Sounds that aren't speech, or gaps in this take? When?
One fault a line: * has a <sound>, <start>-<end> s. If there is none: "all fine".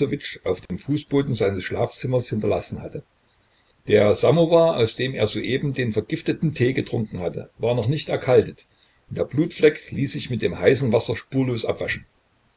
* has a dropout, 0.7-0.7 s